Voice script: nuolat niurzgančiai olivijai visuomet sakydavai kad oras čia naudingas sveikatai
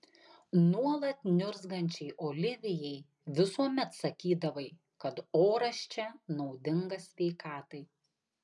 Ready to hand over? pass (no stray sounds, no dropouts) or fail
pass